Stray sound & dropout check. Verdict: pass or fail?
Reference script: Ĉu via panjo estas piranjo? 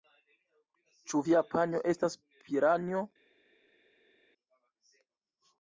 pass